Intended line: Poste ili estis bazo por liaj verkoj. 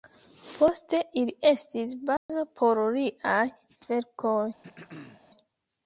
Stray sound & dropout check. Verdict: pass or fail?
fail